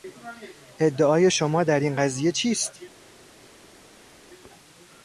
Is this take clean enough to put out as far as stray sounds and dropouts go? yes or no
yes